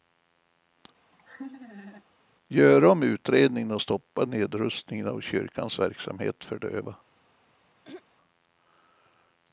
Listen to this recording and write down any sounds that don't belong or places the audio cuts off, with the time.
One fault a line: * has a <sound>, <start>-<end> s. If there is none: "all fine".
* has a laugh, 1.1-2.0 s
* has a throat clearing, 7.8-8.0 s